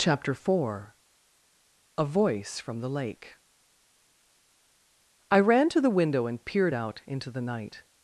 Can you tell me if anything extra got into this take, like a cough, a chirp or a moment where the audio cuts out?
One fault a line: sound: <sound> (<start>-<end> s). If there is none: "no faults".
no faults